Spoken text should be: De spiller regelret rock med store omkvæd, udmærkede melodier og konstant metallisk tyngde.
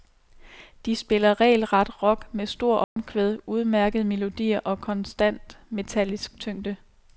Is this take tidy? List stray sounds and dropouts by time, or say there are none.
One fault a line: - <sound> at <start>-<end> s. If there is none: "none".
- dropout at 2.8-3.0 s